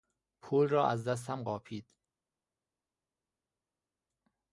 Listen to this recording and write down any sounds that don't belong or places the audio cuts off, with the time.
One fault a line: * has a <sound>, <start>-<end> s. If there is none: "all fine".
all fine